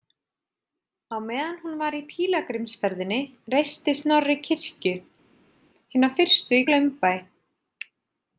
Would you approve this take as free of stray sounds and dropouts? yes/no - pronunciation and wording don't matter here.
yes